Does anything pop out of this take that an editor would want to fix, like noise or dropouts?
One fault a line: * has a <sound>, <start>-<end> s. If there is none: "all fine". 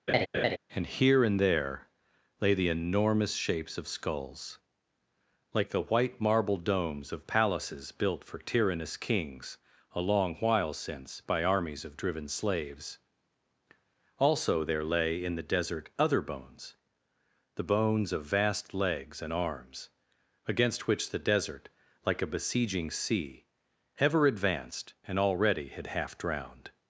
* has a laugh, 0.1-0.6 s